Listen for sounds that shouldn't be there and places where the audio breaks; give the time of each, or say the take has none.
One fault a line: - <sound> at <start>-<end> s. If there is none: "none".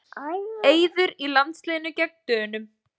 none